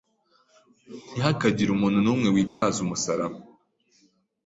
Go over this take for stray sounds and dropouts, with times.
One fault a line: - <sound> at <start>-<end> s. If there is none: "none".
- dropout at 2.5-2.6 s